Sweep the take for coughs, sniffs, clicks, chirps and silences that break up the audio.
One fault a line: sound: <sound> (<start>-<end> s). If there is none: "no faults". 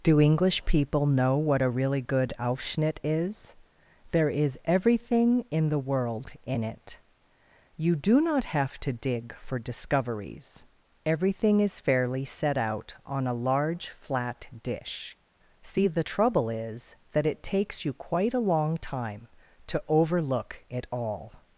no faults